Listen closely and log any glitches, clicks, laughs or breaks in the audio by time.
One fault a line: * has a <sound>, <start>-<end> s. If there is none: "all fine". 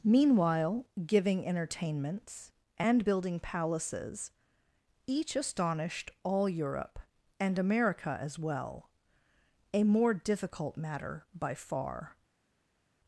all fine